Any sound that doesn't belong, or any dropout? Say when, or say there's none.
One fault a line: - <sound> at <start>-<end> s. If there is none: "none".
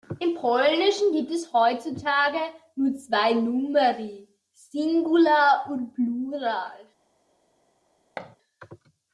- thud at 8.2-8.4 s